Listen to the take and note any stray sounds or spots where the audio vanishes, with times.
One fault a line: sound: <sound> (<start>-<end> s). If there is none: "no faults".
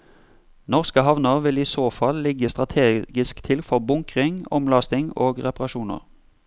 no faults